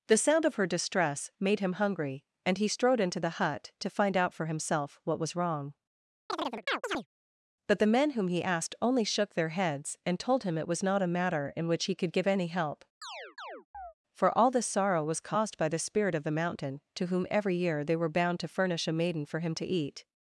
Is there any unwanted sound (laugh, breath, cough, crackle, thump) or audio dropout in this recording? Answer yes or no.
yes